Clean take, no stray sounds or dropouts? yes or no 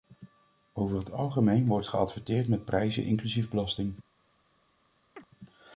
no